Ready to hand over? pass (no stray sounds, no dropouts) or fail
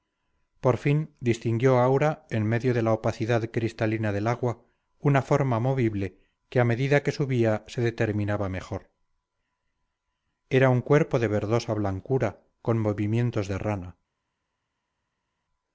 pass